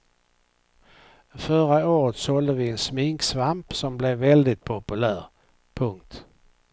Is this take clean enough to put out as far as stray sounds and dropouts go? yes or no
yes